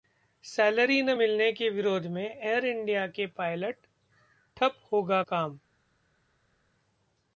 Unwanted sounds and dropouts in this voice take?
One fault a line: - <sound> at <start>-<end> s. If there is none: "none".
none